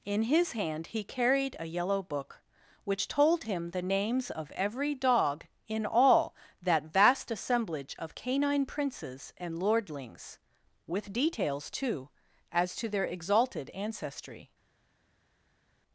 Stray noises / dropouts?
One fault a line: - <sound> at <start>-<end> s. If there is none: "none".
none